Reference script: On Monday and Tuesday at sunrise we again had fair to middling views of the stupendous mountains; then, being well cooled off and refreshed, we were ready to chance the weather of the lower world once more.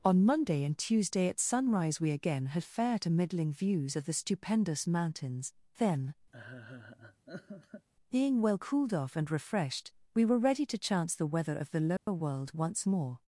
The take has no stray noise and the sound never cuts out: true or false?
false